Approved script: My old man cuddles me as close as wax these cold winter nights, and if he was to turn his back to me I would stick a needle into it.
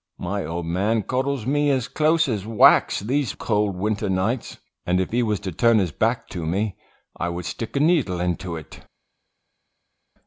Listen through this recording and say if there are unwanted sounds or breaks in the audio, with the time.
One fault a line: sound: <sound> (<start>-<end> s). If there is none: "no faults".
no faults